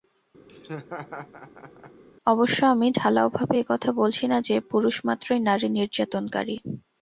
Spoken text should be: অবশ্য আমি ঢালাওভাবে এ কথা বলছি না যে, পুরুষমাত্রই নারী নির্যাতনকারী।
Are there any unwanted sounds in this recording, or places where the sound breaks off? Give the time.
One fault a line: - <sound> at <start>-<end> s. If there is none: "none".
- laugh at 0.5-2.0 s